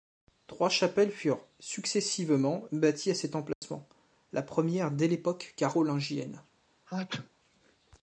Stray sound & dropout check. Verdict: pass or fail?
fail